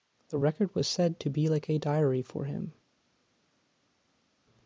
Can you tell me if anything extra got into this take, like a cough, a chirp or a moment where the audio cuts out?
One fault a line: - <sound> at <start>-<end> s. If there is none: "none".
none